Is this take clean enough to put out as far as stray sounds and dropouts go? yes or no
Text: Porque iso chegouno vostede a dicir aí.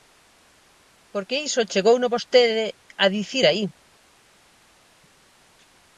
yes